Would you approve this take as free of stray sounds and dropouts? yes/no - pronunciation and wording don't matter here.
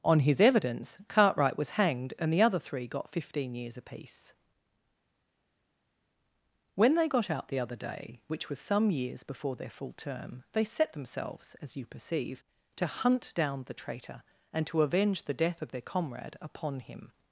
yes